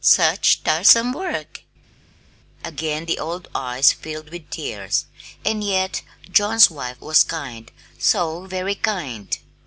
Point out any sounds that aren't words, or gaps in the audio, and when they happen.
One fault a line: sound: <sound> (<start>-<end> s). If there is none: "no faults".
no faults